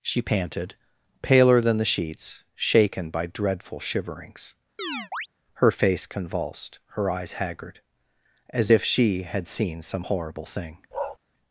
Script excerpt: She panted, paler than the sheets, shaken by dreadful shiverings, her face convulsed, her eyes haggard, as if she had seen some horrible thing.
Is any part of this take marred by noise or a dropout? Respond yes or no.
yes